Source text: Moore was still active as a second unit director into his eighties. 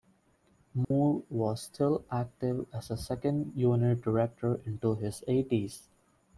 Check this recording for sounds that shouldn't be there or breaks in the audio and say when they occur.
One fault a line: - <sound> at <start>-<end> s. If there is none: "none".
- dropout at 0.8-0.9 s